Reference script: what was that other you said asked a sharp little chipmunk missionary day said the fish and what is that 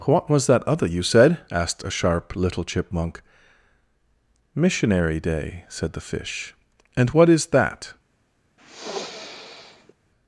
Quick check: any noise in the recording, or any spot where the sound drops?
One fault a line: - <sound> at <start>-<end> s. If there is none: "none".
- sniff at 8.6-9.9 s